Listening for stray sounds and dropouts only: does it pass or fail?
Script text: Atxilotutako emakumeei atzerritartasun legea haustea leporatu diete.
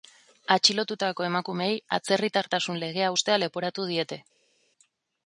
pass